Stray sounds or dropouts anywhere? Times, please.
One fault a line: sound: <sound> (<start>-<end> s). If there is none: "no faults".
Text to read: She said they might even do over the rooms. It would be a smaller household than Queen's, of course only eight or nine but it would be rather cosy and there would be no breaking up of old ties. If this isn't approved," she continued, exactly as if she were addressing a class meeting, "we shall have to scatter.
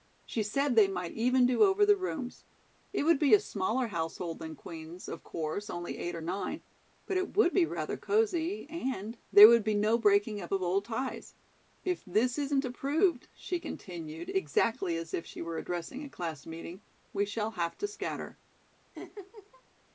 sound: laugh (18.9-19.6 s)